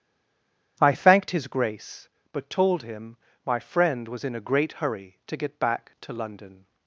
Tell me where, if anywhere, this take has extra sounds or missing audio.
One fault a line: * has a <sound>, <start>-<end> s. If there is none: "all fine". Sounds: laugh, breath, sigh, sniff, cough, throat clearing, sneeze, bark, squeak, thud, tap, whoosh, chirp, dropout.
all fine